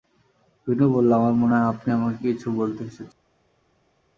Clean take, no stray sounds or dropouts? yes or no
yes